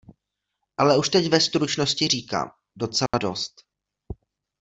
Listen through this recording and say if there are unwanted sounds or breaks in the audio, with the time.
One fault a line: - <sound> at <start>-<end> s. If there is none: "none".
- dropout at 3.1-3.1 s